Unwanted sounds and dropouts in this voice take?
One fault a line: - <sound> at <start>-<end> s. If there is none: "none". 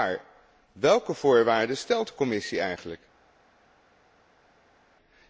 none